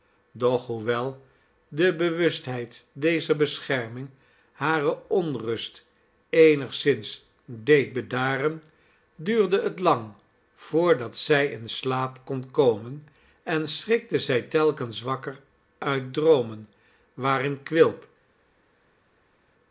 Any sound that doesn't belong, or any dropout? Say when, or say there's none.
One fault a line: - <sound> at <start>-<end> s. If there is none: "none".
none